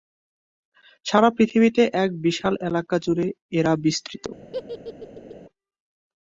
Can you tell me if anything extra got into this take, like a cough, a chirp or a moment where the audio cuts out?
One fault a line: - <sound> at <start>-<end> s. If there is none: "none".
- laugh at 4.5-5.4 s